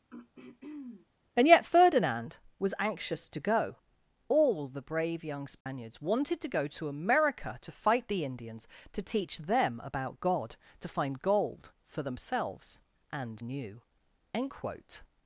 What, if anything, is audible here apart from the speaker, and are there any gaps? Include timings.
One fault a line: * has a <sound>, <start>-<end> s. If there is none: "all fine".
* has a throat clearing, 0.1-1.1 s
* has a dropout, 5.6-5.7 s